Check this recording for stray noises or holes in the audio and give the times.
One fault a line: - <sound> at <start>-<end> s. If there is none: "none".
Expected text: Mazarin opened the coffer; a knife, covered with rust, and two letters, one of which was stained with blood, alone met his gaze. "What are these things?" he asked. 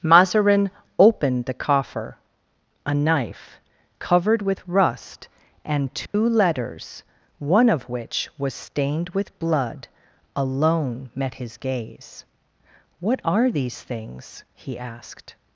- dropout at 6.1-6.1 s